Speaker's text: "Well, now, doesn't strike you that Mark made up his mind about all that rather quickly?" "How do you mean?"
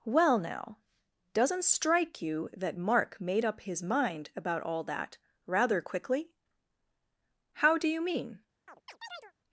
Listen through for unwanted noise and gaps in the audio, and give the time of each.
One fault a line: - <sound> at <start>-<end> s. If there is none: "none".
- chirp at 8.7-9.3 s